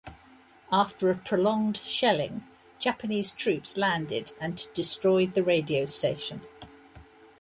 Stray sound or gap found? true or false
false